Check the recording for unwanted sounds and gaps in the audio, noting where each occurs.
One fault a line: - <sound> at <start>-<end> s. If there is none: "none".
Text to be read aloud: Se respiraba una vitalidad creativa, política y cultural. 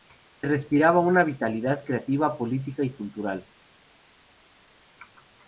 none